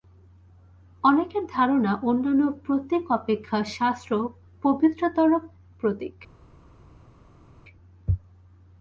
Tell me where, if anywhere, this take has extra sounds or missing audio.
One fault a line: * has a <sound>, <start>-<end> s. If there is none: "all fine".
all fine